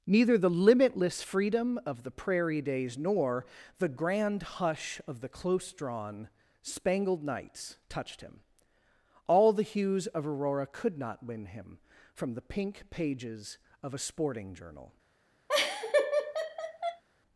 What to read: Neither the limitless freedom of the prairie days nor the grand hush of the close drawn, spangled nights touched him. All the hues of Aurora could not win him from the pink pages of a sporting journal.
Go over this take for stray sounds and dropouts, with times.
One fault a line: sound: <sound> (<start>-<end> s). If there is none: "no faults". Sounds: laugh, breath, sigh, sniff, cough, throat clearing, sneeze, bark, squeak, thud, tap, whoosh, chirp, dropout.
sound: laugh (15.5-17.0 s)